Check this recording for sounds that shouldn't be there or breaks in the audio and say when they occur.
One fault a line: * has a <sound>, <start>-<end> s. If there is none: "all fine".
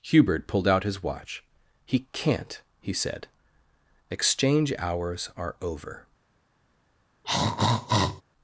* has a throat clearing, 7.2-8.2 s